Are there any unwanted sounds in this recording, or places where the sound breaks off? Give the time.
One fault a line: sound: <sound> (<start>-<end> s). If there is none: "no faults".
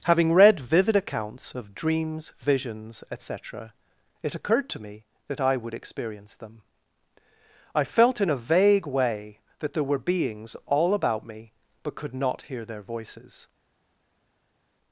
no faults